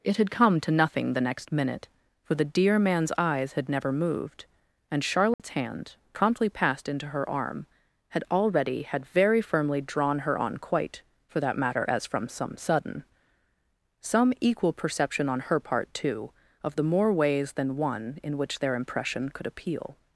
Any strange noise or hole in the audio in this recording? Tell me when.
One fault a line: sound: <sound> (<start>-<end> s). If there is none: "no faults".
sound: dropout (5.3-5.4 s)